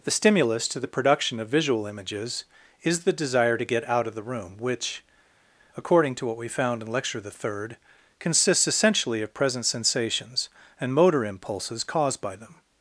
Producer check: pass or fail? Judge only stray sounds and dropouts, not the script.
pass